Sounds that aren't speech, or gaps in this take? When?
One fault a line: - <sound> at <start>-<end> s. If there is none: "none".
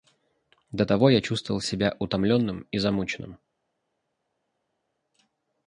none